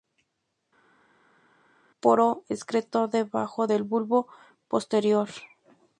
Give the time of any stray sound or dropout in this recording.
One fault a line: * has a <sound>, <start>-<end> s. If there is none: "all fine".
all fine